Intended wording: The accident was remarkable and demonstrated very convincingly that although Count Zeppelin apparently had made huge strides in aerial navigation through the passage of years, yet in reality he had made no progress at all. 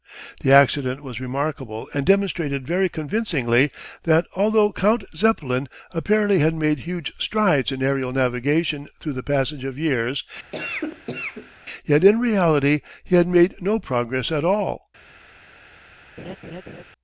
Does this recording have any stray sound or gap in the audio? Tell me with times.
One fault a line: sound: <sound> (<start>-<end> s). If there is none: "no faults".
sound: cough (10.5-11.6 s)
sound: laugh (16.2-16.8 s)